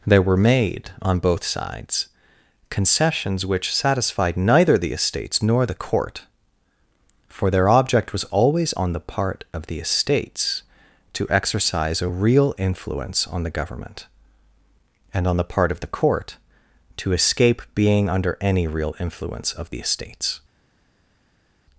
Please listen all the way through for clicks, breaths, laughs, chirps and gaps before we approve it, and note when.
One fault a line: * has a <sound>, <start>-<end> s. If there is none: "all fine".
all fine